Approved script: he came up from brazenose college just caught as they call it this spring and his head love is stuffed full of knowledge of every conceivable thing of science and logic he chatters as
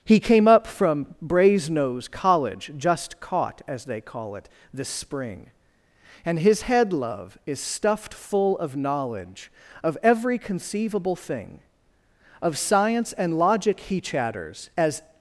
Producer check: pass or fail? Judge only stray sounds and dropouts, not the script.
pass